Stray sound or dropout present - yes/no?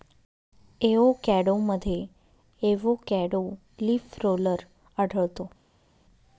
no